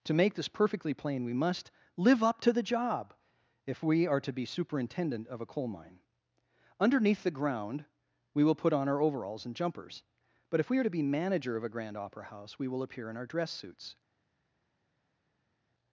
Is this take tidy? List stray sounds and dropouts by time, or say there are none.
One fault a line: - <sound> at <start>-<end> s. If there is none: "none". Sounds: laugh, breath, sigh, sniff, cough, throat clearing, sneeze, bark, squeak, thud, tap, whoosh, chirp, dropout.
none